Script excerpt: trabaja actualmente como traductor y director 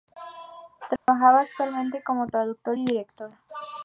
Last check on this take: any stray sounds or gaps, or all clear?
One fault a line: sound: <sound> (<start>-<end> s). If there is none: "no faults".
sound: dropout (1.0-1.1 s)